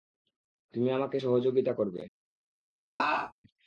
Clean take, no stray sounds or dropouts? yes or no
no